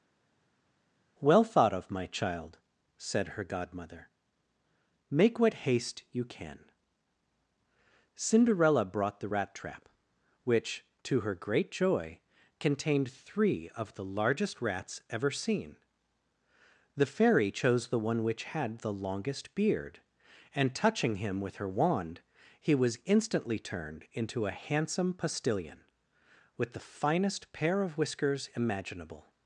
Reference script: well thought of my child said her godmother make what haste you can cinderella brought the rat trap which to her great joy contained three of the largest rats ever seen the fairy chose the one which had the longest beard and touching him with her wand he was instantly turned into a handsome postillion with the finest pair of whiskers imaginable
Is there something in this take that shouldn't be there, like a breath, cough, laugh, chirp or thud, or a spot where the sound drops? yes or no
no